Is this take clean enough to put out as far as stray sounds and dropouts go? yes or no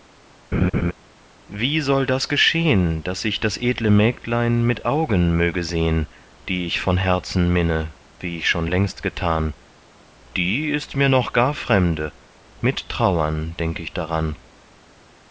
no